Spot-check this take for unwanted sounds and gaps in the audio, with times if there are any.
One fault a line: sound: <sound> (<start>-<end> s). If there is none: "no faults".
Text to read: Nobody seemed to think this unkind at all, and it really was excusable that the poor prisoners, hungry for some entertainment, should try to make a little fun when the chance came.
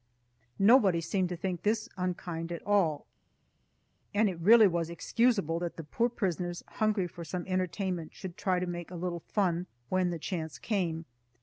no faults